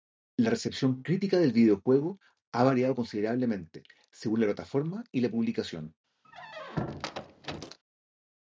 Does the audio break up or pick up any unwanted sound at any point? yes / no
yes